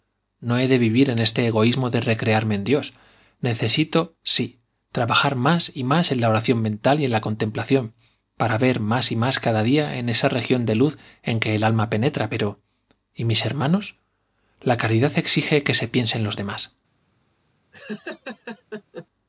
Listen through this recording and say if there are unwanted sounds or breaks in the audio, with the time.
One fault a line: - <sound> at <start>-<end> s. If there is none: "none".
- laugh at 17.7-19.1 s